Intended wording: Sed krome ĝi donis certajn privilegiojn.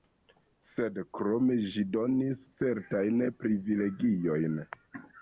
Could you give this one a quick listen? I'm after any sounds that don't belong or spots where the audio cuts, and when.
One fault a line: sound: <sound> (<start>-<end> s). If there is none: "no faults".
no faults